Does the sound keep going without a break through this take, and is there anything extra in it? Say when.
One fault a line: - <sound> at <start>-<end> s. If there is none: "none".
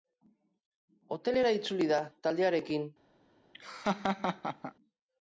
- laugh at 3.5-4.7 s